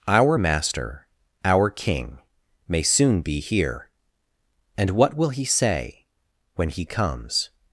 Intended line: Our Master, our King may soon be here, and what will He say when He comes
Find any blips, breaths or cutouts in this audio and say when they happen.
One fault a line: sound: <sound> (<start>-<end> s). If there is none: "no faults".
no faults